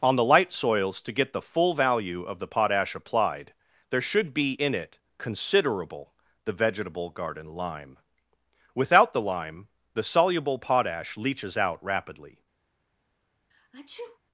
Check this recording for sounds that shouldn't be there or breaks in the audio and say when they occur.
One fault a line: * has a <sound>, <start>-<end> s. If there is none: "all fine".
* has a sneeze, 13.5-14.2 s